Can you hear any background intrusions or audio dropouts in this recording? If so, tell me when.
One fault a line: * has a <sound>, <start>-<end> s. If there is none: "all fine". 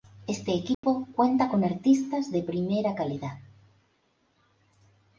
* has a dropout, 0.7-0.8 s